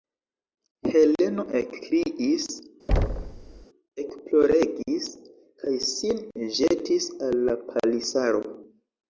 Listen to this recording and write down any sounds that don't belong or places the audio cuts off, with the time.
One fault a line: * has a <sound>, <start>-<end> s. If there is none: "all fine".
* has a thud, 2.9-3.7 s